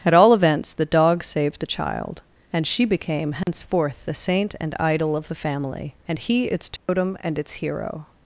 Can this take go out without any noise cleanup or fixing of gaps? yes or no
no